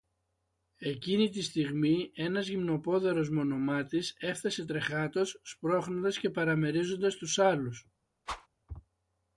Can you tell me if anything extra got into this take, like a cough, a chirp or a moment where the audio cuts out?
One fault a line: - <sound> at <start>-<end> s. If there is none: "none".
- whoosh at 8.3-8.5 s